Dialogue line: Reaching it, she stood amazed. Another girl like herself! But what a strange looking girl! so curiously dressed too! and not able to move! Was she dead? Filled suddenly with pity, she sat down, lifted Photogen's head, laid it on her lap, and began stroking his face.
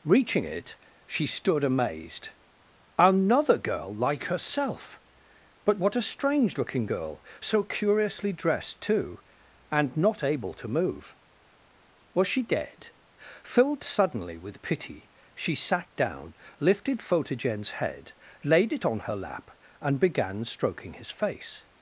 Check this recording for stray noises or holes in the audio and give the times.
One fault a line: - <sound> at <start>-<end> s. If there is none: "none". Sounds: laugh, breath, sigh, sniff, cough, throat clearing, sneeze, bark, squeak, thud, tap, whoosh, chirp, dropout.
none